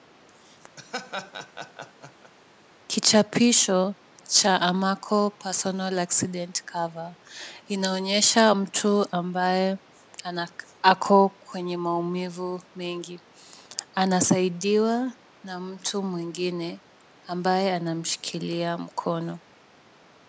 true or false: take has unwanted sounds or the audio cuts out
true